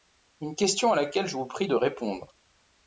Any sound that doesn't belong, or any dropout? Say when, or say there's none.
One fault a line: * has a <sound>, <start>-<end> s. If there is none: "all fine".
all fine